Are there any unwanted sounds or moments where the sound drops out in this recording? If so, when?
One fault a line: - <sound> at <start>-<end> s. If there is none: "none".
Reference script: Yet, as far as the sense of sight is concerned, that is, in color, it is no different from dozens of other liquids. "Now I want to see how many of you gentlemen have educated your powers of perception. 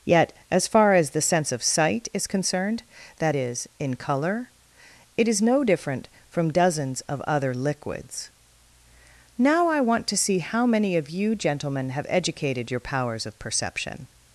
none